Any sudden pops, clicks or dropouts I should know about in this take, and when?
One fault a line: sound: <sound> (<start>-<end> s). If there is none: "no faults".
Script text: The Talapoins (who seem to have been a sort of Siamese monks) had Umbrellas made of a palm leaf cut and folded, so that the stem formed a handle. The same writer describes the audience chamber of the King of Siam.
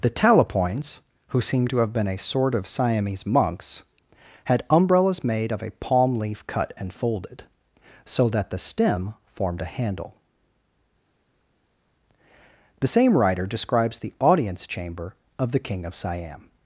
no faults